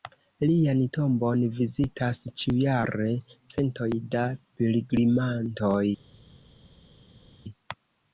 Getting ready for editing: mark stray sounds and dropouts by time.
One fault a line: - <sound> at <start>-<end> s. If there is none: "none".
none